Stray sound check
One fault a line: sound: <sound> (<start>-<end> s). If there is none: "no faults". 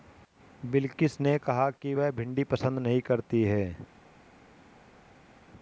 no faults